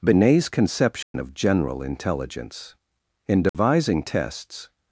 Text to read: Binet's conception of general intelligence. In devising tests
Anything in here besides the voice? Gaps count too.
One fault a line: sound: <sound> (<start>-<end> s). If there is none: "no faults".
sound: dropout (1.0-1.1 s)
sound: dropout (3.5-3.5 s)